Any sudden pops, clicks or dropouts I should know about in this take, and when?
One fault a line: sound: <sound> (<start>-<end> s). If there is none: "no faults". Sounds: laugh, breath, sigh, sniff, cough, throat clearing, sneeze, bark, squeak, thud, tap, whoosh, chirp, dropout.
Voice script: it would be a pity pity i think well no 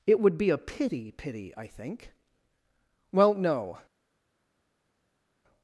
no faults